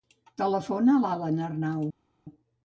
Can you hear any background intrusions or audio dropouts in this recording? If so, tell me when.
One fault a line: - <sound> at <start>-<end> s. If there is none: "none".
none